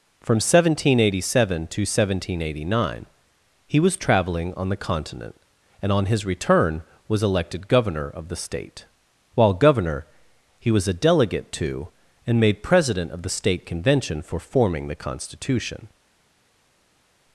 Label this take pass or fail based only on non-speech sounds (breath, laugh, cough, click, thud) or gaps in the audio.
pass